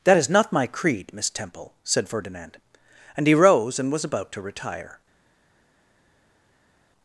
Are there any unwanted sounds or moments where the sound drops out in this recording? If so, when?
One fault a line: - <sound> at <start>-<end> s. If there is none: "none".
none